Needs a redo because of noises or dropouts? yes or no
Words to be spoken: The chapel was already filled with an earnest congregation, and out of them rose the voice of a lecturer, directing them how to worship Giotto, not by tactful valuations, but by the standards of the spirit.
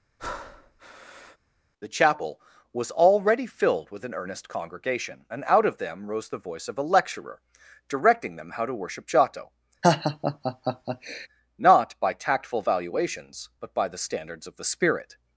yes